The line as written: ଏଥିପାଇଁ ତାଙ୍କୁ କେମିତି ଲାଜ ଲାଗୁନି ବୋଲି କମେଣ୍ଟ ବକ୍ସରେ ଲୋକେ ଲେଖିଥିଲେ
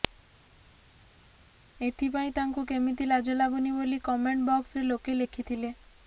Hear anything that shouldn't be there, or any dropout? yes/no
no